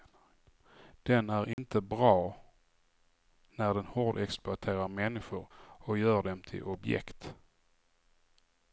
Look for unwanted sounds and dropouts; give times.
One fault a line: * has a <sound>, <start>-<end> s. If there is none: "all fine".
* has a dropout, 1.5-1.6 s